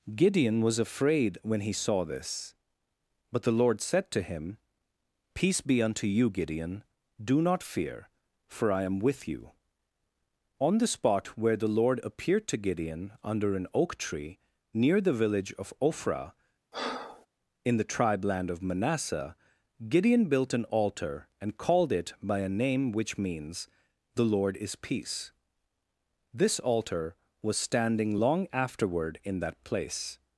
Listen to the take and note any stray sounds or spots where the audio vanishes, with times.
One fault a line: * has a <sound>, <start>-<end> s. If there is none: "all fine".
* has a breath, 16.7-17.3 s